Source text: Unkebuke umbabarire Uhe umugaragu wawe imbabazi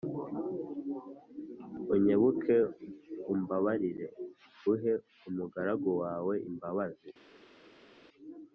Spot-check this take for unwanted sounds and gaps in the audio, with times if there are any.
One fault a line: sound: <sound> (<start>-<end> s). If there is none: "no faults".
no faults